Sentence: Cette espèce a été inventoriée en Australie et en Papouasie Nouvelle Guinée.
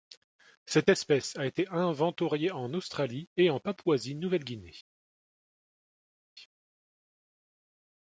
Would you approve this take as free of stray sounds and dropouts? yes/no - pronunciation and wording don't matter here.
yes